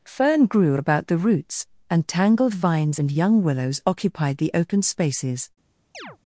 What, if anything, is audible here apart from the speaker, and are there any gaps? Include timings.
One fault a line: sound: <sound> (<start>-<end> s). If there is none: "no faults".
sound: chirp (5.9-6.2 s)